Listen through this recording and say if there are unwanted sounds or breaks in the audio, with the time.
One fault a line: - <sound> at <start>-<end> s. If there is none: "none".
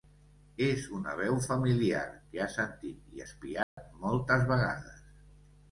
- dropout at 3.6-3.8 s